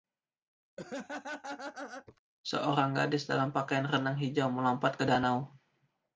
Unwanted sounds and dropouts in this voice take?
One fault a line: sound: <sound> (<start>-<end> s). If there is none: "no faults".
sound: laugh (0.8-2.2 s)